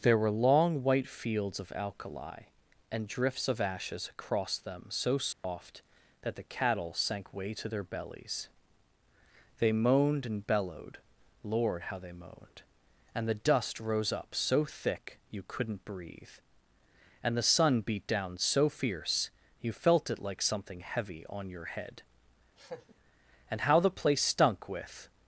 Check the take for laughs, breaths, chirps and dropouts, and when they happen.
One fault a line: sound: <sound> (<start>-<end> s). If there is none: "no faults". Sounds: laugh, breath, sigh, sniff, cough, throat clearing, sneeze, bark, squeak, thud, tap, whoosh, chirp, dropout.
sound: dropout (5.3-5.4 s)
sound: laugh (22.6-22.9 s)